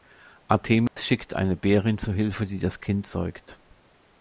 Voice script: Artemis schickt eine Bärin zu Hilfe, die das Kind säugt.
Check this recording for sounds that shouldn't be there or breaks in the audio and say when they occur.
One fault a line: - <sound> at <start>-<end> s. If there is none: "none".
- dropout at 0.9-1.0 s